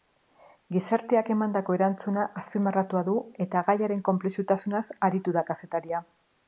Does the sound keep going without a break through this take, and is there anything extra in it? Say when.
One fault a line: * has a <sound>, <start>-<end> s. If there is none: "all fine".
all fine